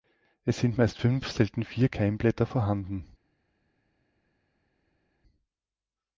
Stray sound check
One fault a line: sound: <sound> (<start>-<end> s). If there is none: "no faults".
no faults